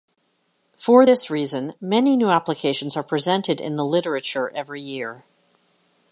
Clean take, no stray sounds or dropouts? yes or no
yes